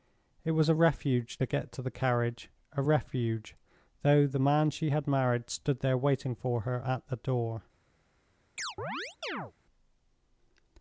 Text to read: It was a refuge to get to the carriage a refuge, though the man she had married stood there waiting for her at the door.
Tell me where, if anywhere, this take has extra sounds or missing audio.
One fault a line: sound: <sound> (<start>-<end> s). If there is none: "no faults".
sound: chirp (8.6-9.5 s)